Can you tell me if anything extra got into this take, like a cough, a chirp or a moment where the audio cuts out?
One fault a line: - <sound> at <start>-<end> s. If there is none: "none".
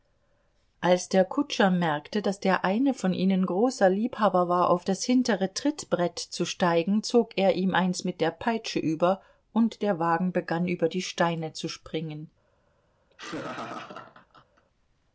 - laugh at 13.1-14.7 s